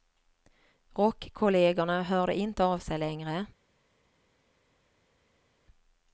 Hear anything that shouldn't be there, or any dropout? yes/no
no